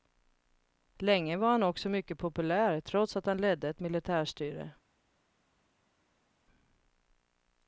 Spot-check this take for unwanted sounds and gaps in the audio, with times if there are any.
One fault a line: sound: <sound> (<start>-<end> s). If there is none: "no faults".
no faults